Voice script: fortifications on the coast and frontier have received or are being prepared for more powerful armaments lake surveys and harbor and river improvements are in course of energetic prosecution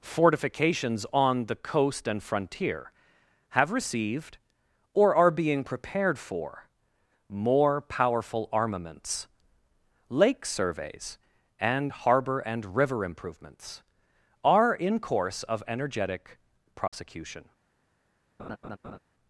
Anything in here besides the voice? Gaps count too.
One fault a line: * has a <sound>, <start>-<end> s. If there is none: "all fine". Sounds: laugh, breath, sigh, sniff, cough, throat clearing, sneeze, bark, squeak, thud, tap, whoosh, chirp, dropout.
* has a dropout, 16.9-16.9 s
* has a laugh, 18.4-19.0 s